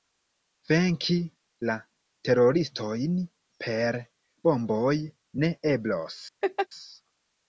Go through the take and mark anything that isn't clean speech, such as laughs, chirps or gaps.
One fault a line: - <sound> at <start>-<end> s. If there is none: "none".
- laugh at 6.4-6.7 s